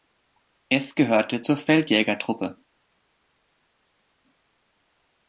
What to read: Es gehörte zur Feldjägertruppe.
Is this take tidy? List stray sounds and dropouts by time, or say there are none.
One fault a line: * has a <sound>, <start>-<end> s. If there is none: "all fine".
all fine